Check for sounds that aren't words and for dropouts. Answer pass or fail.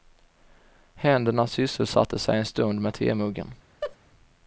fail